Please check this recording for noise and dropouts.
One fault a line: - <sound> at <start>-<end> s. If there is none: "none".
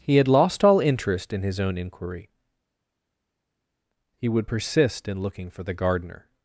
none